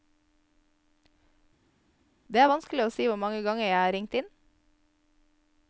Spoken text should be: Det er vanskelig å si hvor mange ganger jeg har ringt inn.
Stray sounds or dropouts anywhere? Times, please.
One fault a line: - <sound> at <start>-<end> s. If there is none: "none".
none